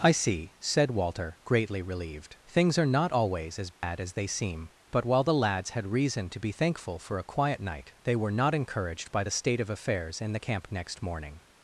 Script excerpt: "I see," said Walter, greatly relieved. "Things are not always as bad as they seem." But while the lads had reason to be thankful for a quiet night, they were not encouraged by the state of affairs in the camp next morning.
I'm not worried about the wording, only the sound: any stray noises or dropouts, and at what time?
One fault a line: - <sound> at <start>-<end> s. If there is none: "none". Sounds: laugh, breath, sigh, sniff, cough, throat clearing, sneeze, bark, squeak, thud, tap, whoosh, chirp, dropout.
- dropout at 3.7-3.8 s